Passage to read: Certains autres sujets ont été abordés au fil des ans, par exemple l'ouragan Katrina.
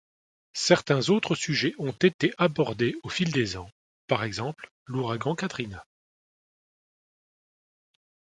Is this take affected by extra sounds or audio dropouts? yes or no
no